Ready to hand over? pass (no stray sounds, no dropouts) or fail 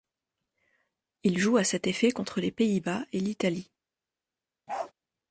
fail